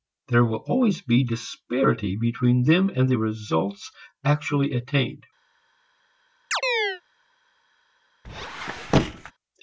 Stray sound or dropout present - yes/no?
yes